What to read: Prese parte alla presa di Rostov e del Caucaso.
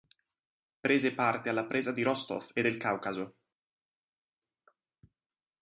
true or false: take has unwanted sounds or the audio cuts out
false